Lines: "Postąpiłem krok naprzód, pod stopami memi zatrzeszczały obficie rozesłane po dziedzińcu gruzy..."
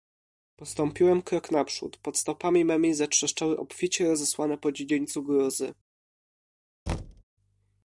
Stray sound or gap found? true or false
true